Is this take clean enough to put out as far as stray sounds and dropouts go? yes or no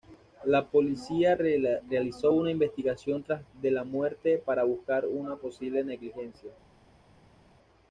yes